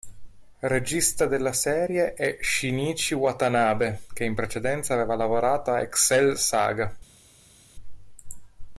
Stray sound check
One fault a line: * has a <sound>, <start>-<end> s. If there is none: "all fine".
all fine